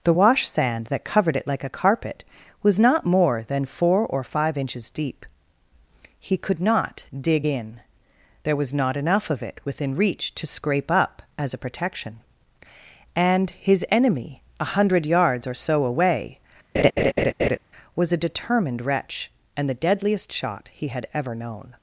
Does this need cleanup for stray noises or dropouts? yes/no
yes